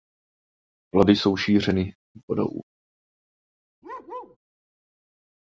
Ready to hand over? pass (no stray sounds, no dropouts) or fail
fail